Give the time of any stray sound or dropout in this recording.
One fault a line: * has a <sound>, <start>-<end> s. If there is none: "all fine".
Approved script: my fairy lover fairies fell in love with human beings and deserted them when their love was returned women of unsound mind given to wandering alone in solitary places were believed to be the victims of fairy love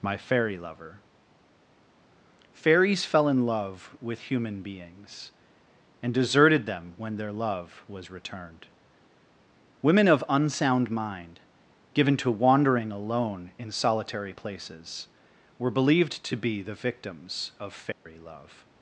* has a dropout, 17.9-18.1 s